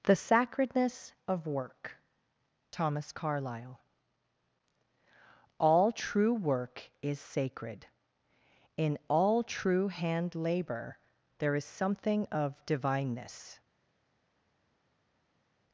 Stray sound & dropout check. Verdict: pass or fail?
pass